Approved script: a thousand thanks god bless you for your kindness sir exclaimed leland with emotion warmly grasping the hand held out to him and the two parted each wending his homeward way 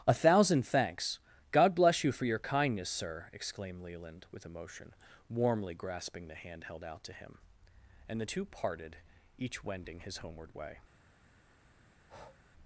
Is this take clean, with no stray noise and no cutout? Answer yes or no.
no